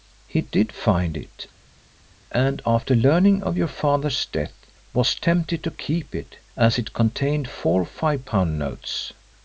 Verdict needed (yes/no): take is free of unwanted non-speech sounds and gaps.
yes